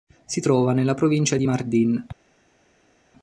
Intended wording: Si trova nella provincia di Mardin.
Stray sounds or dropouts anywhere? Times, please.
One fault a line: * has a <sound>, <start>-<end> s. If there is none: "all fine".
all fine